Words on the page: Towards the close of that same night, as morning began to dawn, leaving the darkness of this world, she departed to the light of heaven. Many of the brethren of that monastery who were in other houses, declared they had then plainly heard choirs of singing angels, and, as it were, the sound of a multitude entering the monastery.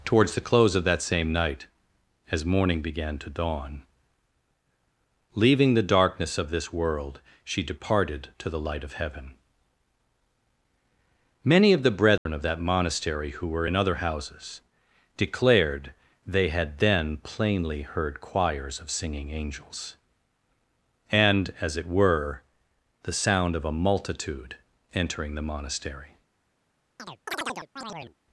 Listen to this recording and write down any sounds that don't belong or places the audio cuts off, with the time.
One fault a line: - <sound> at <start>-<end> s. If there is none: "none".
- dropout at 12.2-12.3 s
- chirp at 27.0-28.2 s